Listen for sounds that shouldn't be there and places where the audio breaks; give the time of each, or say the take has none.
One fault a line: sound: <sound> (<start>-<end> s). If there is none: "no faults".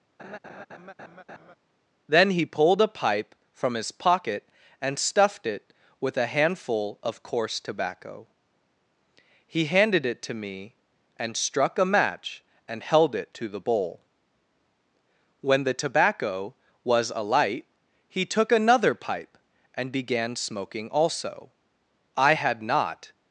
sound: laugh (0.2-1.6 s)